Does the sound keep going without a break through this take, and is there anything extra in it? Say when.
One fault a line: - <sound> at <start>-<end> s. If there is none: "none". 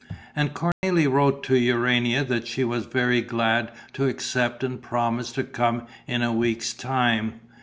- dropout at 0.7-0.8 s